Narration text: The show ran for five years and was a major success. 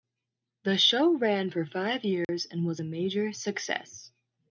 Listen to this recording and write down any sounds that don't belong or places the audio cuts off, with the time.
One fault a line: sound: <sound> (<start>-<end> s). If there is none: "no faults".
sound: dropout (2.2-2.3 s)